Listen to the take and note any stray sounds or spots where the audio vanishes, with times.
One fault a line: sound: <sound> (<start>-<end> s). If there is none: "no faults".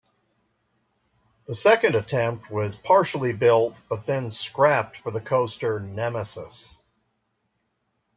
no faults